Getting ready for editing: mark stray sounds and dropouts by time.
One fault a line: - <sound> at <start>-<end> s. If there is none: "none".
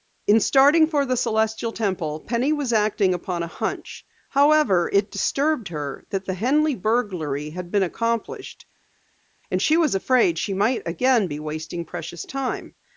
none